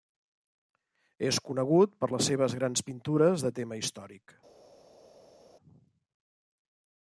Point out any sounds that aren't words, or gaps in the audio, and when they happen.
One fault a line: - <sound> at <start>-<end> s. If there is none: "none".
none